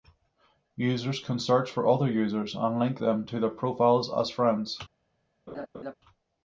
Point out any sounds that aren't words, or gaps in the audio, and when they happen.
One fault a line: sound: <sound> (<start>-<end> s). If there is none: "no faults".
sound: laugh (5.5-5.9 s)